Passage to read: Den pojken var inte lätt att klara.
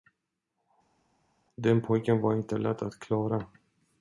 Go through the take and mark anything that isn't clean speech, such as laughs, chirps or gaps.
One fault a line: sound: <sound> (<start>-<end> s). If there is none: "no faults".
no faults